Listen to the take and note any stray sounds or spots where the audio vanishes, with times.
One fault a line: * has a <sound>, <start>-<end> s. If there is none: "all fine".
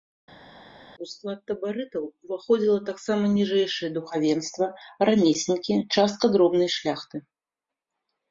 all fine